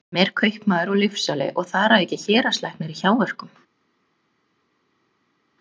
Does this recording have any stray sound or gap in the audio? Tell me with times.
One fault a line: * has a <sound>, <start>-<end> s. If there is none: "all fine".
all fine